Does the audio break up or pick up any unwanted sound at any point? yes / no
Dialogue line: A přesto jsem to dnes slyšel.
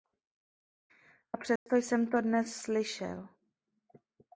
yes